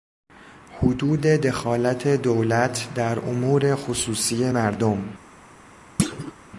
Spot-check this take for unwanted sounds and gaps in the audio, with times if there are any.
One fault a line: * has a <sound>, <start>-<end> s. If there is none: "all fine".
* has a thud, 6.0-6.3 s